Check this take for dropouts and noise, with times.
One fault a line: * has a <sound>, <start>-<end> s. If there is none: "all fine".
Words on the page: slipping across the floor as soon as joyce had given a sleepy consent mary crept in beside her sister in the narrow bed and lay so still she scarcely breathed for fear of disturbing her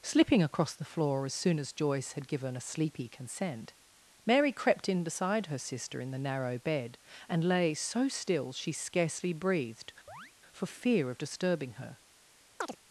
* has a chirp, 10.1-10.3 s
* has a chirp, 12.6-12.8 s